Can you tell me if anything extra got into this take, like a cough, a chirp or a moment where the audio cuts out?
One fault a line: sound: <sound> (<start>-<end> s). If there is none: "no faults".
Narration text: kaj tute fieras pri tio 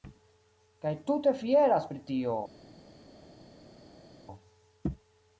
no faults